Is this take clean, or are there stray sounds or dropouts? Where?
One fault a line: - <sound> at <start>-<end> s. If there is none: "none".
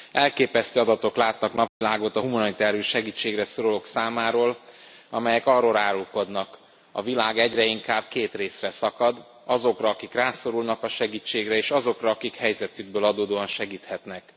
- dropout at 1.7-1.8 s